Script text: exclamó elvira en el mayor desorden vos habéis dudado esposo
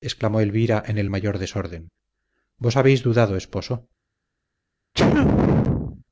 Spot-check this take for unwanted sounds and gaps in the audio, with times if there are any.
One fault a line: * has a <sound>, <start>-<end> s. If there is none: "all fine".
* has a sneeze, 4.9-6.0 s